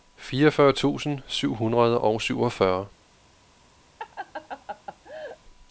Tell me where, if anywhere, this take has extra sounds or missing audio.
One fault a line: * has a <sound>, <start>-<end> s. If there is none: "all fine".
* has a laugh, 4.0-5.4 s